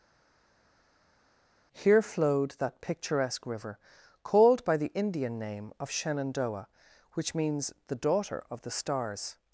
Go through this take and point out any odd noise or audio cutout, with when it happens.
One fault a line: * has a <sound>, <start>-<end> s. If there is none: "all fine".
all fine